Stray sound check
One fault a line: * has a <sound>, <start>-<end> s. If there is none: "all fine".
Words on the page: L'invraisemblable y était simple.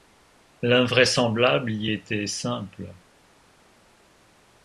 all fine